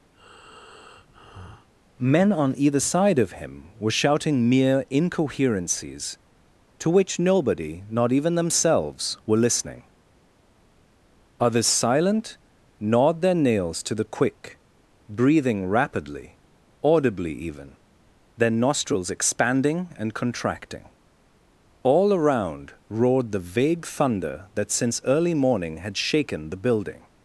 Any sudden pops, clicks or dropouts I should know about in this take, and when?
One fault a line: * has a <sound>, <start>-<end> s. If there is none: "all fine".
* has a breath, 0.1-1.7 s